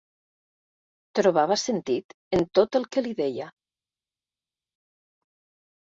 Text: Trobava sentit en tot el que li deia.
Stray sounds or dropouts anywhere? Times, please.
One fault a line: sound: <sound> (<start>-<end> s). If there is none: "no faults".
no faults